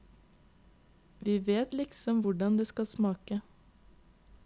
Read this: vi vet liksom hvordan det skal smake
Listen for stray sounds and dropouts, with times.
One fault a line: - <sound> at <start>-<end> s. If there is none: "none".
none